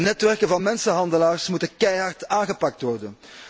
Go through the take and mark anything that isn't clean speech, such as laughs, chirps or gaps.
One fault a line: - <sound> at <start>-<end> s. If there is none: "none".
none